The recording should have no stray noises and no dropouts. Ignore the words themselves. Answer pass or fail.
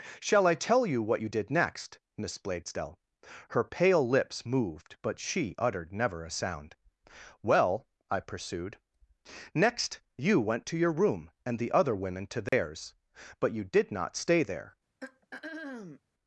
fail